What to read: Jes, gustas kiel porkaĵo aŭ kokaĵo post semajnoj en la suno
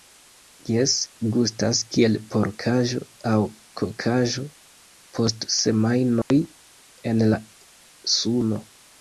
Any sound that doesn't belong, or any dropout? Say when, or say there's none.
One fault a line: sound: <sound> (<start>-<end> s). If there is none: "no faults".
sound: dropout (6.2-6.3 s)